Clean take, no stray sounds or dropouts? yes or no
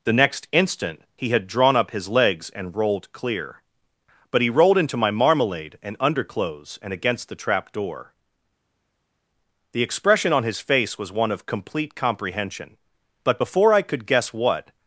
yes